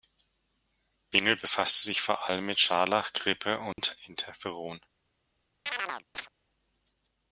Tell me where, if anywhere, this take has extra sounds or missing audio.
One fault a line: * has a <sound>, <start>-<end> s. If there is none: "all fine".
* has a dropout, 3.7-3.8 s
* has a chirp, 5.7-6.3 s